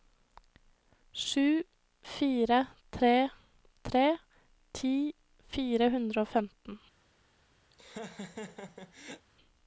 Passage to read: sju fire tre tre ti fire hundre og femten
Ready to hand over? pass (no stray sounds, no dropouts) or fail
fail